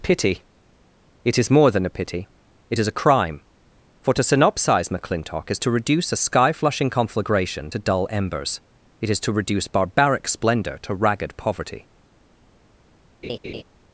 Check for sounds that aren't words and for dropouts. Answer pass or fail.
fail